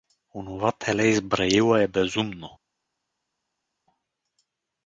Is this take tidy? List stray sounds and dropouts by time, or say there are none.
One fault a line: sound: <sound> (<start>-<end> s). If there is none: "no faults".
no faults